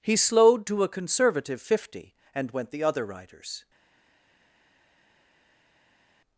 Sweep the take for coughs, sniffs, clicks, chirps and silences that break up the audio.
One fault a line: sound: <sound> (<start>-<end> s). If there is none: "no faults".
no faults